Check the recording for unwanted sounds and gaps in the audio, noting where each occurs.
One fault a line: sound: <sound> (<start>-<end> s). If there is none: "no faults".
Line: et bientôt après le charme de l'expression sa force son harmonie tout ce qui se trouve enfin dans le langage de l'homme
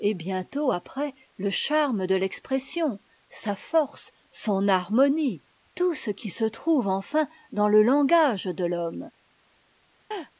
sound: laugh (10.1-10.3 s)